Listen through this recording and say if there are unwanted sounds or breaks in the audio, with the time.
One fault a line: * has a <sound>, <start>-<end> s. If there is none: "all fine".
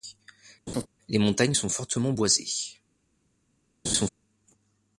* has a laugh, 0.7-0.9 s
* has a laugh, 3.8-4.1 s